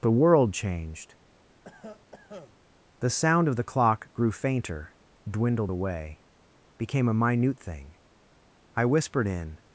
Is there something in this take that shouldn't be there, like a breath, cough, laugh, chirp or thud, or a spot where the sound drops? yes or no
yes